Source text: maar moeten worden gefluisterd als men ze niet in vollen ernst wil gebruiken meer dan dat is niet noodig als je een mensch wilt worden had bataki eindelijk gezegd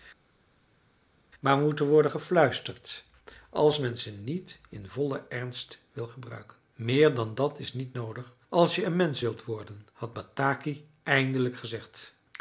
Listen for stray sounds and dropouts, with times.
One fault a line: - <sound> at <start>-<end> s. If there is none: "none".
none